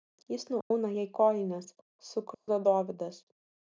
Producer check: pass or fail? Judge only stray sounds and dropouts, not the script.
fail